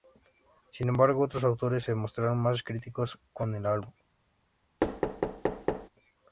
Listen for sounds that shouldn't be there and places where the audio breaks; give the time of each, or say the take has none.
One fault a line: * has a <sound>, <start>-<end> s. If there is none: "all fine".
* has a thud, 4.8-5.9 s